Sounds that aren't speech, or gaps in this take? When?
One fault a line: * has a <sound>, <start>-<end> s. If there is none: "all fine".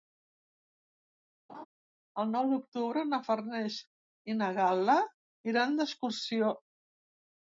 * has a laugh, 1.5-1.7 s